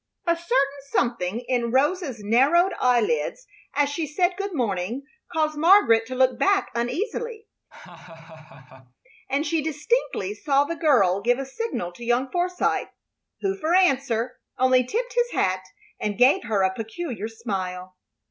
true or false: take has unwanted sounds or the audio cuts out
true